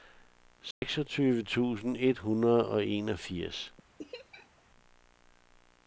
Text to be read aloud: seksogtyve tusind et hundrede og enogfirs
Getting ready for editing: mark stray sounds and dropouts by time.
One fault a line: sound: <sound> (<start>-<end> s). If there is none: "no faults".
sound: dropout (0.7-0.8 s)
sound: laugh (4.0-4.6 s)